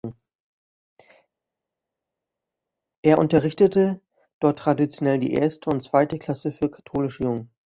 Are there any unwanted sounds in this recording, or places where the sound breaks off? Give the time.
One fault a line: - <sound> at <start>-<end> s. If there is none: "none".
none